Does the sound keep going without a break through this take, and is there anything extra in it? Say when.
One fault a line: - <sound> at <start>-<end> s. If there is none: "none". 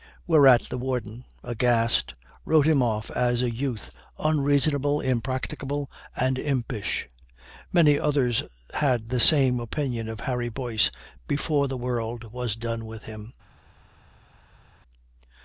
none